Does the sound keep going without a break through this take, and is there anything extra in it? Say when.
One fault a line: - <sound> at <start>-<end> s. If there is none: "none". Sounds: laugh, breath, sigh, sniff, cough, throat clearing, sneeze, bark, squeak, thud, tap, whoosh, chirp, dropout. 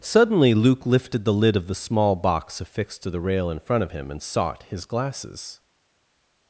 none